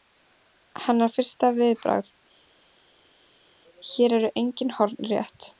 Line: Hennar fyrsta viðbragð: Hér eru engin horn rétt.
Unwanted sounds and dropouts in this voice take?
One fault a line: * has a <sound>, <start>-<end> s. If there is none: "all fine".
all fine